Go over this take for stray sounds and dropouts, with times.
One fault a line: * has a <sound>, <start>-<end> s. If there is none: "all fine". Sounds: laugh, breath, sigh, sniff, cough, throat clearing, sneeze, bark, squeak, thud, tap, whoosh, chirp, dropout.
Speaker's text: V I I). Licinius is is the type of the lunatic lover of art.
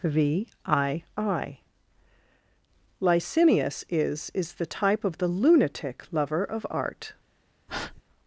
* has a breath, 7.7-8.0 s